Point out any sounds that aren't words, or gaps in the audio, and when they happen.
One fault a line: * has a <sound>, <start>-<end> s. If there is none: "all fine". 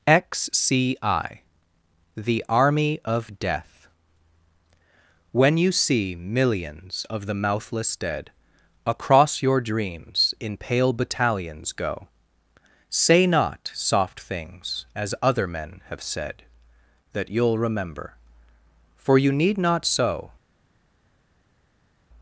all fine